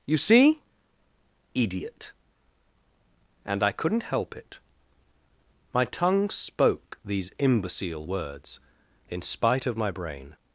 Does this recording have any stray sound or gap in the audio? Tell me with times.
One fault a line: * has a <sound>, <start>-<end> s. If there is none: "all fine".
all fine